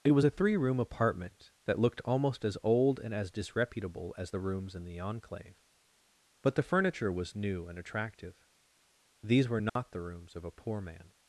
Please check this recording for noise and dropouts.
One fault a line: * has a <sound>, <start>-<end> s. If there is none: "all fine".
* has a dropout, 9.7-9.8 s